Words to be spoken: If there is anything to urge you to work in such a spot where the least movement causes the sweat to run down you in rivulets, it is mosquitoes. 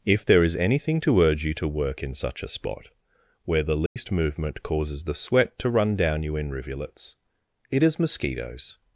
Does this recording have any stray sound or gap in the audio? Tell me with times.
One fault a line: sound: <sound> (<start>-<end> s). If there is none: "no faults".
sound: dropout (3.9-4.0 s)